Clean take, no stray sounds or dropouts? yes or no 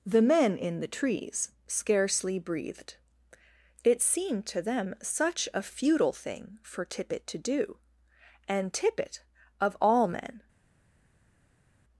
yes